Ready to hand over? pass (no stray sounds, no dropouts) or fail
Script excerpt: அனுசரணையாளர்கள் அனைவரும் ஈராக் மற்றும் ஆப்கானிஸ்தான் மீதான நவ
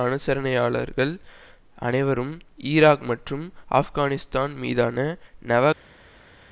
pass